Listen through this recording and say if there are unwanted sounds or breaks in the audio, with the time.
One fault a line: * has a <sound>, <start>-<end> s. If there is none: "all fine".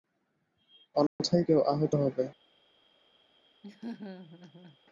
* has a dropout, 1.1-1.2 s
* has a laugh, 3.6-4.8 s